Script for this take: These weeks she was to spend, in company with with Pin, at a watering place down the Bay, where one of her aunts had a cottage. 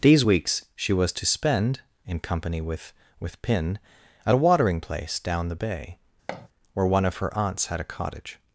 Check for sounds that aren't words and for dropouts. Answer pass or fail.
fail